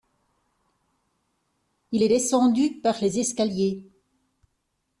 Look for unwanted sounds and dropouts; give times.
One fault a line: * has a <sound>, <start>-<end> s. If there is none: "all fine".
all fine